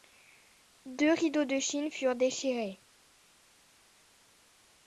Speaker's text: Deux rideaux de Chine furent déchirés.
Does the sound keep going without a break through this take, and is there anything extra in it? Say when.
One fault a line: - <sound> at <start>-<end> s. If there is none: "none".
none